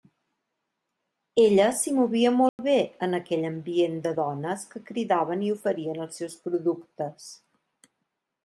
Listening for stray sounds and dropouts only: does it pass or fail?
fail